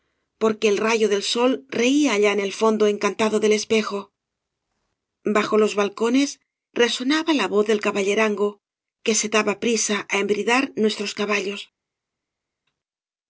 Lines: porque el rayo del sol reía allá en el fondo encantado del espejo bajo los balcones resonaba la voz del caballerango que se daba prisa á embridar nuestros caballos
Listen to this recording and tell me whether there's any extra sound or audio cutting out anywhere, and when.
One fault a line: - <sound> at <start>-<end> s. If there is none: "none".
none